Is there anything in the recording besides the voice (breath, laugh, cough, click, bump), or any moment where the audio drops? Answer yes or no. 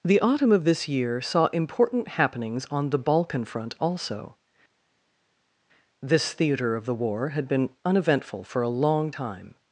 no